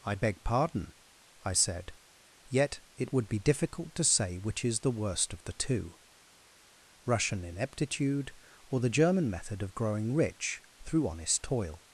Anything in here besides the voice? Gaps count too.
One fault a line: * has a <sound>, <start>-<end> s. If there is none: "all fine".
all fine